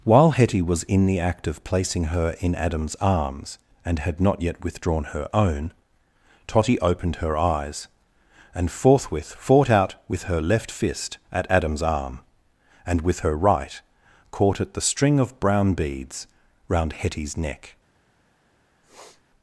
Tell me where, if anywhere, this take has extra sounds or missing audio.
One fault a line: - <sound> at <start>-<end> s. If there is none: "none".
- sniff at 18.8-19.2 s